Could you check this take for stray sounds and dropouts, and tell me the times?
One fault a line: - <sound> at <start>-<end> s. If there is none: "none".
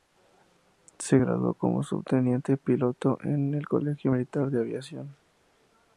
none